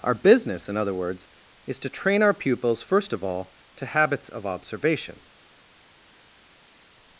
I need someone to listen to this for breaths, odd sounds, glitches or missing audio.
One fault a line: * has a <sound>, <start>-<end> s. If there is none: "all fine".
all fine